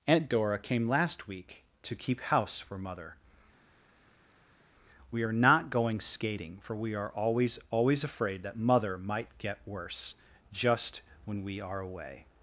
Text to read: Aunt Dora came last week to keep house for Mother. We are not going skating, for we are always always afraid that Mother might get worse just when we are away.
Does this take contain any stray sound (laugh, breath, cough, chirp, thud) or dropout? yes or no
no